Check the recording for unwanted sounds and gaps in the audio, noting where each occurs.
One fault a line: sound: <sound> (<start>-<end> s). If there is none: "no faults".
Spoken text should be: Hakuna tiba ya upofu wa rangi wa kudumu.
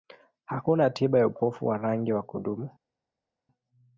no faults